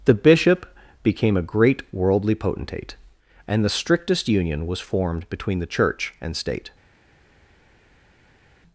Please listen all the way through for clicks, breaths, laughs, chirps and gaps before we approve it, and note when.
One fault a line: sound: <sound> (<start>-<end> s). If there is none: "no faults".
no faults